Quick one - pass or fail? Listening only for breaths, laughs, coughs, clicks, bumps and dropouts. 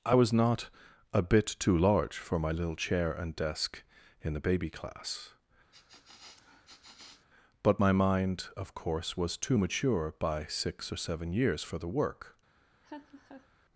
fail